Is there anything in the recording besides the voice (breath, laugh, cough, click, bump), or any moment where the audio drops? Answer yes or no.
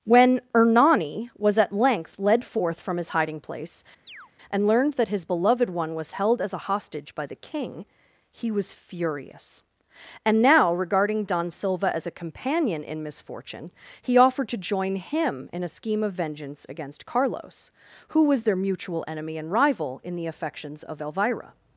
yes